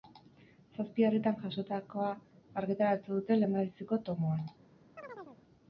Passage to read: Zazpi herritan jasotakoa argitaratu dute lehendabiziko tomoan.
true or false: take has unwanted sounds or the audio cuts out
true